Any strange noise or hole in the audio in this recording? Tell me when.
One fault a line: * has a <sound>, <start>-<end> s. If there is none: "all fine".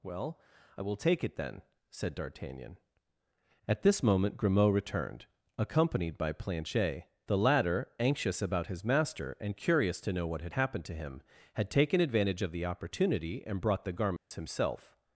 * has a dropout, 14.2-14.3 s